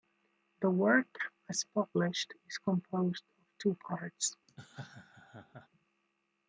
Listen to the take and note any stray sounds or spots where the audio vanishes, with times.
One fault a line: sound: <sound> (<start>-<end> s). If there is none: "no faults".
sound: laugh (4.5-5.7 s)